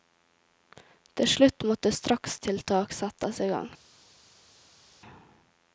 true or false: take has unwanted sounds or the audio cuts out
false